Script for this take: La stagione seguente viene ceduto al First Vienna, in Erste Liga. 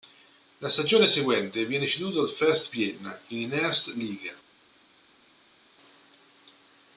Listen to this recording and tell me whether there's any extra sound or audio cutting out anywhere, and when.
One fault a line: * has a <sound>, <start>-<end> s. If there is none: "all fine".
all fine